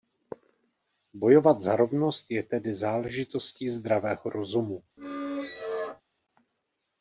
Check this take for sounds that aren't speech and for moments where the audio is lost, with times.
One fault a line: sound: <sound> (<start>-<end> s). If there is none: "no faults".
sound: squeak (5.0-6.0 s)